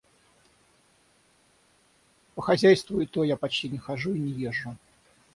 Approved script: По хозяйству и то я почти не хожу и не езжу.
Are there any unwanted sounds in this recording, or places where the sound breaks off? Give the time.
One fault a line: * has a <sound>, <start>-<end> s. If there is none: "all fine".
all fine